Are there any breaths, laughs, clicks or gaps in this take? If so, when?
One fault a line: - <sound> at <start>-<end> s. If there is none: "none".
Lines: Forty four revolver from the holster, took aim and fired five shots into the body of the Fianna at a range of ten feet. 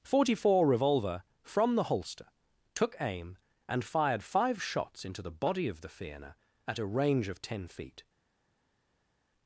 none